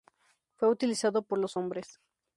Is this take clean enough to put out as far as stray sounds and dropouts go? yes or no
yes